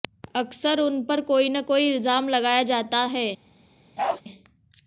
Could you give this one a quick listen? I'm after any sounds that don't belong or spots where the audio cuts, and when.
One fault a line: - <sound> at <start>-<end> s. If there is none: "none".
- bark at 4.0-4.2 s